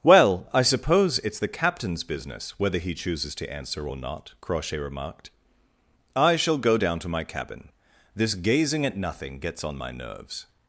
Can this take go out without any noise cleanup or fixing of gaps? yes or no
yes